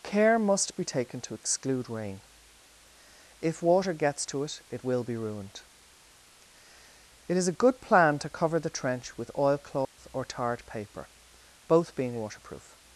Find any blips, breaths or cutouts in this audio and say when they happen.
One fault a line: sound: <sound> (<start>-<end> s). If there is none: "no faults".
sound: dropout (9.8-10.0 s)